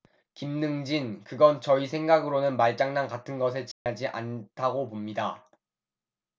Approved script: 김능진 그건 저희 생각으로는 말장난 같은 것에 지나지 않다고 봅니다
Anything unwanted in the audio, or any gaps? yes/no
yes